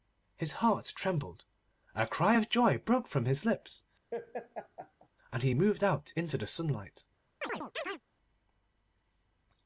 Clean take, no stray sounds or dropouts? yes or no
no